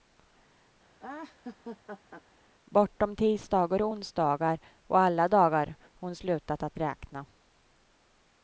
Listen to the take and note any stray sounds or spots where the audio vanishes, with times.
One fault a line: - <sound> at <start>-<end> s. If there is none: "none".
- laugh at 1.0-2.2 s